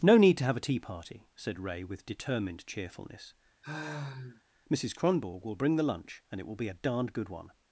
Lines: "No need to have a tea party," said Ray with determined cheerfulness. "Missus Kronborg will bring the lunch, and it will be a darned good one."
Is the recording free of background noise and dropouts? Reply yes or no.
no